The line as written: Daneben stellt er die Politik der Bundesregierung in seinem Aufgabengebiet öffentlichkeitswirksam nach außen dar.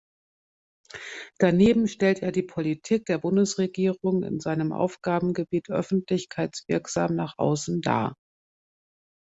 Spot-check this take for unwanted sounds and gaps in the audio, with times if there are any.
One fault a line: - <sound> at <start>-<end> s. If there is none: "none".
none